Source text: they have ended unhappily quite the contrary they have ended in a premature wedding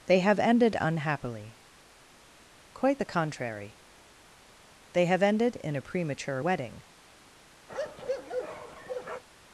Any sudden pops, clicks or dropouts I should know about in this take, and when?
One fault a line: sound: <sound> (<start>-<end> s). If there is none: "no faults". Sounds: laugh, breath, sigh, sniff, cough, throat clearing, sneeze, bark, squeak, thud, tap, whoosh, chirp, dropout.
sound: bark (7.7-9.2 s)